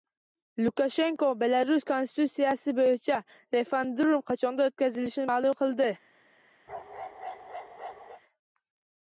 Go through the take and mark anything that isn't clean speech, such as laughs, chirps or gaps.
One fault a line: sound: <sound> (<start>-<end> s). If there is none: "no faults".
sound: bark (6.7-8.2 s)